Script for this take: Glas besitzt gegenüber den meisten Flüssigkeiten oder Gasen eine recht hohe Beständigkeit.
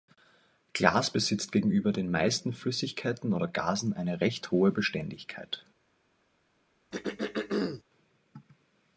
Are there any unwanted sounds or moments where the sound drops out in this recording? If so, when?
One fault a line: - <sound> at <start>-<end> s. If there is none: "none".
- throat clearing at 6.9-7.8 s